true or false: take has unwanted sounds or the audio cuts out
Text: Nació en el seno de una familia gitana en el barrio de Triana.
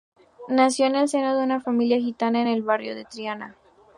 false